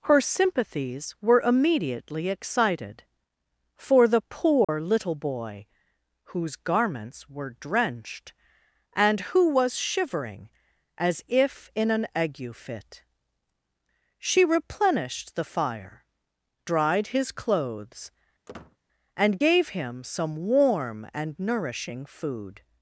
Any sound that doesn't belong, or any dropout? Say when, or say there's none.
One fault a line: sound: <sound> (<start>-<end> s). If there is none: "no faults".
sound: dropout (4.6-4.7 s)
sound: squeak (18.5-18.8 s)